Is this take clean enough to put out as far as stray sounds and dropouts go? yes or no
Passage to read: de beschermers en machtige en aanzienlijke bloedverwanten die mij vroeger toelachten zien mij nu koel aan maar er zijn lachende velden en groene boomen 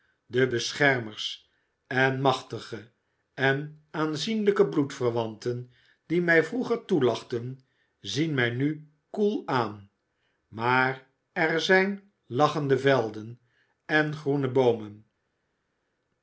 yes